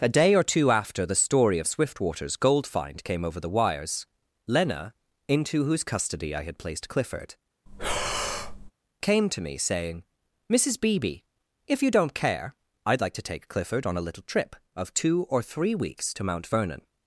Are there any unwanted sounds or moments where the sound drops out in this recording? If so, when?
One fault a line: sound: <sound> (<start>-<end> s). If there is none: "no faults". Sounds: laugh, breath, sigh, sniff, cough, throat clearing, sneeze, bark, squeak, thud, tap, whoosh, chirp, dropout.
sound: breath (7.7-8.7 s)